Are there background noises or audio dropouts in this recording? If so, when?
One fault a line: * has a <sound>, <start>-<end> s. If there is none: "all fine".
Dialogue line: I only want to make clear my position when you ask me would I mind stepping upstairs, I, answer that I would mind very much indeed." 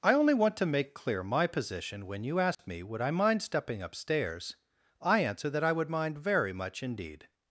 * has a dropout, 2.5-2.6 s